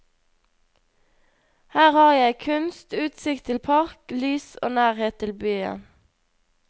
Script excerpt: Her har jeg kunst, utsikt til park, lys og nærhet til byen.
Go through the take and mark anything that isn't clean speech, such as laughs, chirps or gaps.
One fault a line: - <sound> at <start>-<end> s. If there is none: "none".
none